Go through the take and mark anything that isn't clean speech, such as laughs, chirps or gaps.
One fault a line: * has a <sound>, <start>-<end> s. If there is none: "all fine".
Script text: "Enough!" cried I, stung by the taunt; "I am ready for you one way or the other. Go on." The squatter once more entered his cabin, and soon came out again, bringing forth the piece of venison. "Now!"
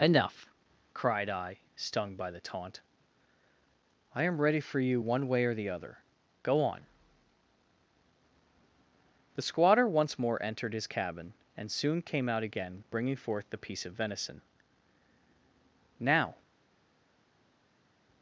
all fine